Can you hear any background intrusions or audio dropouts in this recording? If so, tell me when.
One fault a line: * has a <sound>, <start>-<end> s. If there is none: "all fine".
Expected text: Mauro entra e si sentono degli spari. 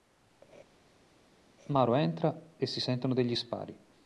all fine